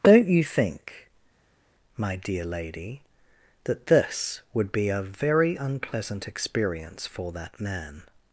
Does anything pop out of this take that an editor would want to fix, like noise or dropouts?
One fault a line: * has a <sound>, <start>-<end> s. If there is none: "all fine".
all fine